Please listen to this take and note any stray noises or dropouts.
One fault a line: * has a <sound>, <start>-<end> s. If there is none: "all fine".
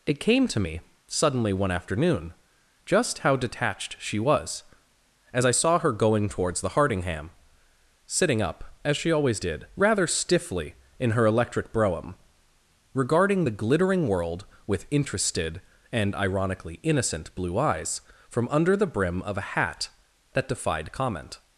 all fine